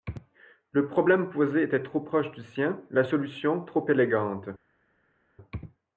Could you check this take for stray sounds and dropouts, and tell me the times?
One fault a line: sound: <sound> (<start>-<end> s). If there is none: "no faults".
no faults